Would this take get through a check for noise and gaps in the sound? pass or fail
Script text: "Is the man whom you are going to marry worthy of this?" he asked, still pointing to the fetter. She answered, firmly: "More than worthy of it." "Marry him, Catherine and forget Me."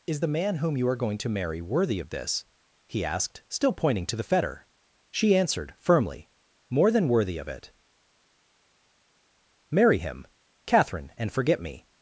pass